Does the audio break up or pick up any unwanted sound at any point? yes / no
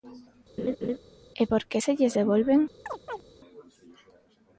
yes